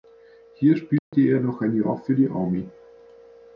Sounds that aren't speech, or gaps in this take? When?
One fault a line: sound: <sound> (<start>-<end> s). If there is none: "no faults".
sound: dropout (1.0-1.1 s)